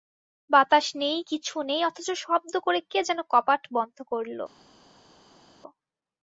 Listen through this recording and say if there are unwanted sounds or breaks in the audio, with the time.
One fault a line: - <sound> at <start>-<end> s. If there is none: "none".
none